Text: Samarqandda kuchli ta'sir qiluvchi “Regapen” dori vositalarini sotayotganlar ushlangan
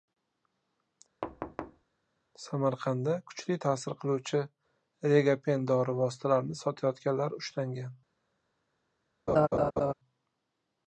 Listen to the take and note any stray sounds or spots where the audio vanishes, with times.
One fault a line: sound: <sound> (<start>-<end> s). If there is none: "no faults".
sound: thud (1.2-1.8 s)
sound: laugh (9.3-9.9 s)